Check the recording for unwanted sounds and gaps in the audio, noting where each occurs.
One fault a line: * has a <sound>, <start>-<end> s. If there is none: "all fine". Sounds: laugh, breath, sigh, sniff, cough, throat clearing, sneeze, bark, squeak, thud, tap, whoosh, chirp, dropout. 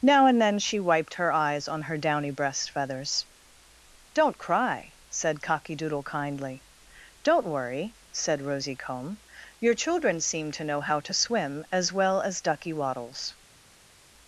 all fine